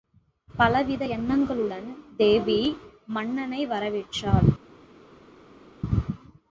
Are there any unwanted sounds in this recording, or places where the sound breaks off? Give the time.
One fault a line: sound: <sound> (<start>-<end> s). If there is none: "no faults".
no faults